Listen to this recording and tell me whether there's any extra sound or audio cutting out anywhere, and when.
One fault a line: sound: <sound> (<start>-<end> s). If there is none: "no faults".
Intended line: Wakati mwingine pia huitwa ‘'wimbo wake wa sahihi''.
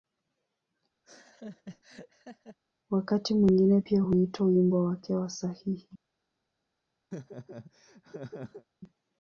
sound: laugh (1.0-2.6 s)
sound: laugh (7.1-8.6 s)